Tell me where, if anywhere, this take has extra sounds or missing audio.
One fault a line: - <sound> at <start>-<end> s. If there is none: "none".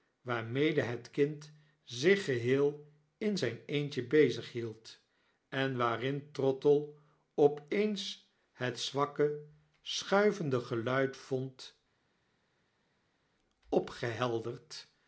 none